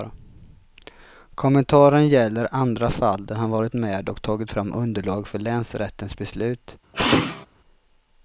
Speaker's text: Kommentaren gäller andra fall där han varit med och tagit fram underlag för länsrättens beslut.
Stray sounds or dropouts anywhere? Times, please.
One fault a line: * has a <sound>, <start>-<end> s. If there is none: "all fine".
* has a sneeze, 6.9-7.5 s